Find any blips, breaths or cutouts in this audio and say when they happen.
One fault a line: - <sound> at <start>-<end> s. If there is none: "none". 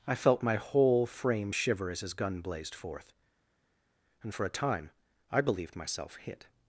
none